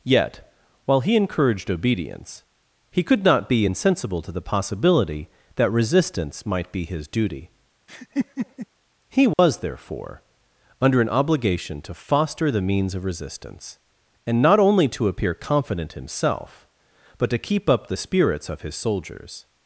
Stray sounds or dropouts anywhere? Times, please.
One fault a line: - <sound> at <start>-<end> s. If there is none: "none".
- laugh at 7.9-8.7 s
- dropout at 9.3-9.4 s